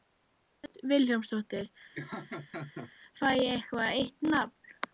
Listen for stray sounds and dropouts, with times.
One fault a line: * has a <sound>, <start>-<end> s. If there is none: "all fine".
* has a laugh, 1.9-2.9 s